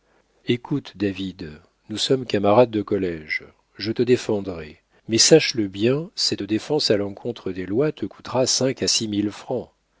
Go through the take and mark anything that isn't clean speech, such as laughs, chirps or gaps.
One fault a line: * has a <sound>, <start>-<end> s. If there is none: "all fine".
all fine